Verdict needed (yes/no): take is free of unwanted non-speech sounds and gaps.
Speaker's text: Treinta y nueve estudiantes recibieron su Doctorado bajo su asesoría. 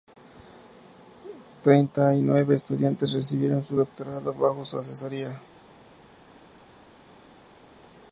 yes